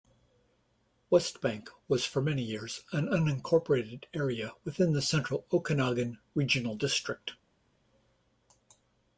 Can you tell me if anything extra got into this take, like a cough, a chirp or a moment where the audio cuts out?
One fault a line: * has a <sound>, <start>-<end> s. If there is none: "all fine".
all fine